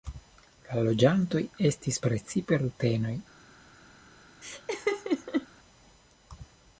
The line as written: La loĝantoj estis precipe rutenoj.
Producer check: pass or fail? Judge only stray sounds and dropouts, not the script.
fail